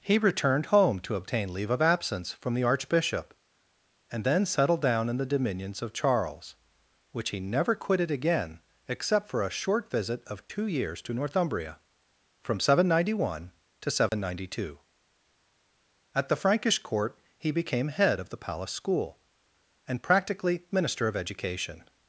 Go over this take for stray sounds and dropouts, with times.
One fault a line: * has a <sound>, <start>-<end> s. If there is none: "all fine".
* has a dropout, 14.1-14.1 s